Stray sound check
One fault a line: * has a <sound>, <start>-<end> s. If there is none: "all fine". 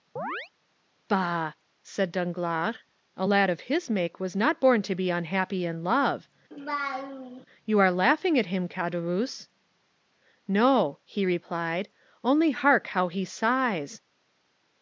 * has a chirp, 0.2-0.5 s
* has a laugh, 6.5-7.5 s